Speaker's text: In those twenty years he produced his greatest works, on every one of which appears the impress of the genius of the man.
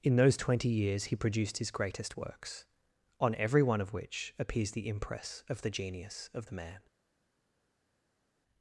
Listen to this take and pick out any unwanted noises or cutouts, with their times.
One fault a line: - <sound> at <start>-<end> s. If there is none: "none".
none